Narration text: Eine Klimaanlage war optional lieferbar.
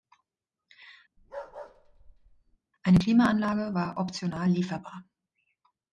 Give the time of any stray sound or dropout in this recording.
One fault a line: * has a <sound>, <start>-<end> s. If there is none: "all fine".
* has a bark, 1.2-2.6 s